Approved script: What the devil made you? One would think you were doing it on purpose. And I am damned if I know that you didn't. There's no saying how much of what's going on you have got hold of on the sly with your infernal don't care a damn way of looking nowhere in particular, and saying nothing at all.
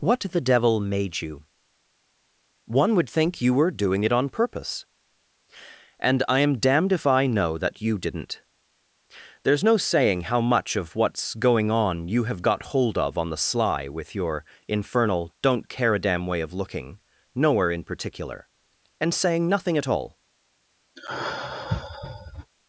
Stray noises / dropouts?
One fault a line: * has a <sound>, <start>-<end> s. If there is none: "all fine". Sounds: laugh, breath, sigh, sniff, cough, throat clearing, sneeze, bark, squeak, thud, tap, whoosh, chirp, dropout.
* has a sigh, 21.0-22.5 s